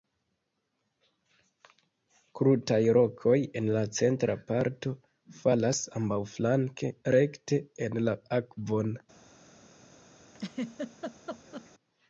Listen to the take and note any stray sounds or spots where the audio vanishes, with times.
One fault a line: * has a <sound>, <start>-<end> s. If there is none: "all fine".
* has a laugh, 10.3-11.7 s